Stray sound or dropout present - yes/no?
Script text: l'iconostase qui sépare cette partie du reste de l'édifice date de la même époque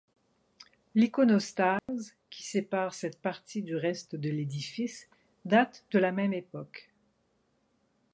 yes